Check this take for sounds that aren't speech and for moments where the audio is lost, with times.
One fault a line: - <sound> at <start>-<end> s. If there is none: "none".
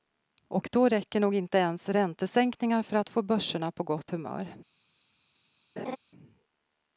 - laugh at 5.8-6.0 s